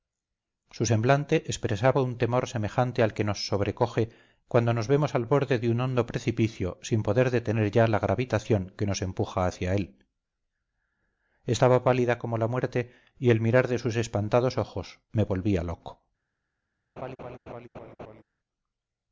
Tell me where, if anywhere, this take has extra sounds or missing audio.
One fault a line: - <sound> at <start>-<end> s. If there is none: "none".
- laugh at 17.0-18.2 s